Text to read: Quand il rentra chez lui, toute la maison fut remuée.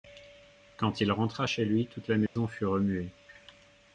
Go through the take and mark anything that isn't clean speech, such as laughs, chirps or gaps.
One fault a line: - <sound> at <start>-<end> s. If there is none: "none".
- dropout at 2.3-2.4 s